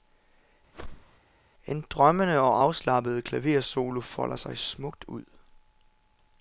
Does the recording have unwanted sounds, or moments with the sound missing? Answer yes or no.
yes